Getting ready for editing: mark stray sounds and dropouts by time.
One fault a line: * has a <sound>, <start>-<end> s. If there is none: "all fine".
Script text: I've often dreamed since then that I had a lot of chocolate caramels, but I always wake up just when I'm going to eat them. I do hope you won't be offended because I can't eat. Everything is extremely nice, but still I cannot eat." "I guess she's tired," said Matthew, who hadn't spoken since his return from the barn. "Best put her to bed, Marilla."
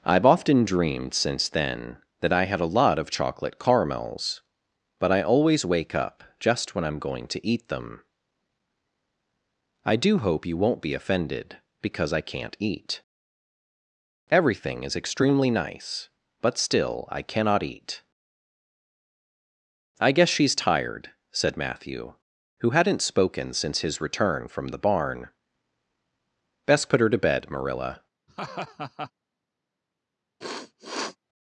* has a laugh, 28.3-29.1 s
* has a sniff, 30.4-31.2 s